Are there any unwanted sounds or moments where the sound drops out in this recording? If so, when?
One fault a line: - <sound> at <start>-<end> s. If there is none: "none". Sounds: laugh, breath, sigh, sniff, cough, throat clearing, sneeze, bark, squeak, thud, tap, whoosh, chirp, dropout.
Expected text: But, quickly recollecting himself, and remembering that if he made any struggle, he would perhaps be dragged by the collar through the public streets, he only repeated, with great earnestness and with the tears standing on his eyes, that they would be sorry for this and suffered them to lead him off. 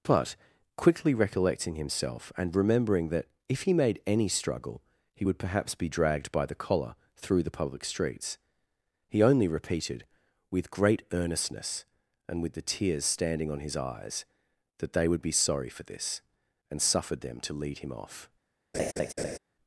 - laugh at 18.7-19.4 s